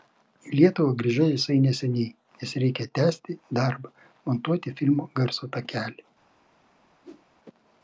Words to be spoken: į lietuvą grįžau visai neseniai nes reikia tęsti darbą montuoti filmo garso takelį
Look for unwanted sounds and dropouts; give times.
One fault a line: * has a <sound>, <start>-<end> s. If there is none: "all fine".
* has a whoosh, 7.0-7.3 s